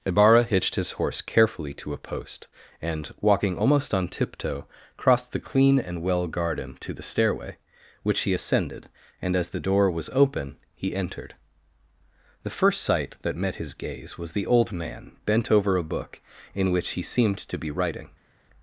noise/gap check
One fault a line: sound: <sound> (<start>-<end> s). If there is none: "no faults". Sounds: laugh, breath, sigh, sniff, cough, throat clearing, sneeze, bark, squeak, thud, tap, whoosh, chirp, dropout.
no faults